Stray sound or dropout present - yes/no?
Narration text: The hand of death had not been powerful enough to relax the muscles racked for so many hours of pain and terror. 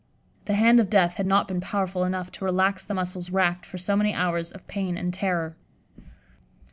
no